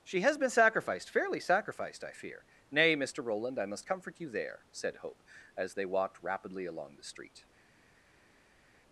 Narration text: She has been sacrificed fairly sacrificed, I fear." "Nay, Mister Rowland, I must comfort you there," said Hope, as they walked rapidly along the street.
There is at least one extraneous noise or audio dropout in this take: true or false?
false